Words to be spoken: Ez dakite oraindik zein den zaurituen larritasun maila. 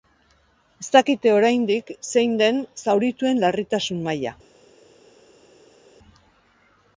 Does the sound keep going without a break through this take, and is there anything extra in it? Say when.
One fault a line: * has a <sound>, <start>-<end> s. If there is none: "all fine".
all fine